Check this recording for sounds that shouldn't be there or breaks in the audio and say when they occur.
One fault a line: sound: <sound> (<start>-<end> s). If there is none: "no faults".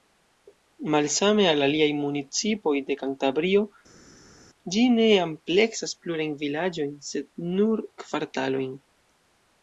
no faults